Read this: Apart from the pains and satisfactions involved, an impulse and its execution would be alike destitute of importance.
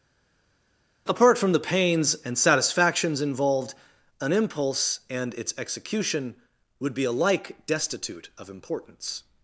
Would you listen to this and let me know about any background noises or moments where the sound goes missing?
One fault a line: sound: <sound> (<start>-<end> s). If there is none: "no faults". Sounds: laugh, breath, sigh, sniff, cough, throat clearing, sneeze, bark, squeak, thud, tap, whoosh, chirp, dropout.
no faults